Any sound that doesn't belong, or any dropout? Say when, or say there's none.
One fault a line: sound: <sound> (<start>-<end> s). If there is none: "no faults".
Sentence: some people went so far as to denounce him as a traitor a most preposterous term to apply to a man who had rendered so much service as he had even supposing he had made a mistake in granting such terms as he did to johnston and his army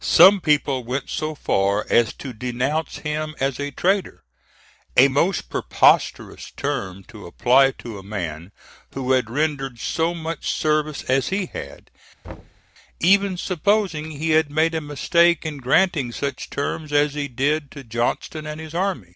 sound: thud (12.2-12.6 s)